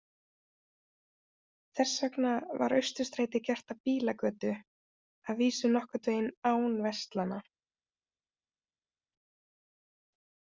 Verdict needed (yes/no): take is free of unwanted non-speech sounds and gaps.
yes